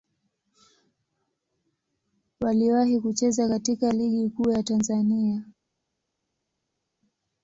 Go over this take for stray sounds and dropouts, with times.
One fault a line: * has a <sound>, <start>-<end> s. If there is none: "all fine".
all fine